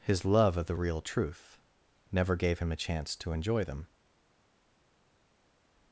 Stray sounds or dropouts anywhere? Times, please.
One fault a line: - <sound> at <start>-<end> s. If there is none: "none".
none